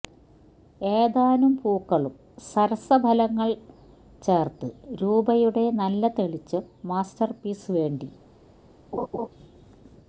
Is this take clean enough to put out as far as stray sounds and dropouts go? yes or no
no